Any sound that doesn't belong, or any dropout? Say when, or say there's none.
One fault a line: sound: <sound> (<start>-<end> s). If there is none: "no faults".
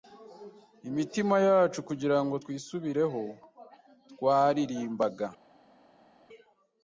no faults